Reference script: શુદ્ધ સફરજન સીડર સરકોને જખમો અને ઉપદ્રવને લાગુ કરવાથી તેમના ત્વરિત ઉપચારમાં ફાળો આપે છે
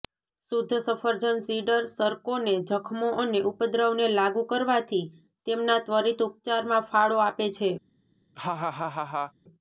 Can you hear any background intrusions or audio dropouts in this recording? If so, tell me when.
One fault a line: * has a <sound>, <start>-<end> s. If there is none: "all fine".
* has a laugh, 8.3-9.3 s